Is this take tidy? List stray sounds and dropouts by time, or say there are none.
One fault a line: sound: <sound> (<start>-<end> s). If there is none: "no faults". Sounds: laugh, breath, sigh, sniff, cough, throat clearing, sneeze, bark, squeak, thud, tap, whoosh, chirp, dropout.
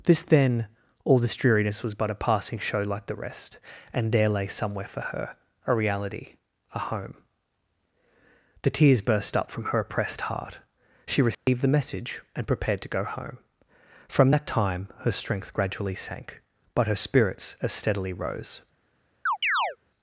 sound: dropout (11.3-11.5 s)
sound: chirp (19.3-19.8 s)